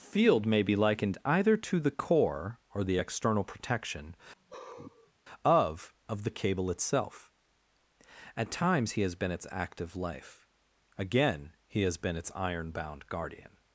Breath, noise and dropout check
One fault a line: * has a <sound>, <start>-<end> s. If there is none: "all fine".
* has a sigh, 4.4-5.1 s